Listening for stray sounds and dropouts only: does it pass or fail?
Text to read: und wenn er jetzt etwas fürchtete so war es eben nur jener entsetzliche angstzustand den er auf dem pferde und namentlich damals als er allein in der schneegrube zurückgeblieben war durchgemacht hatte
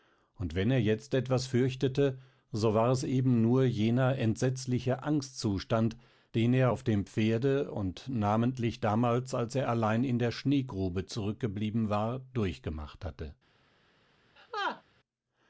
fail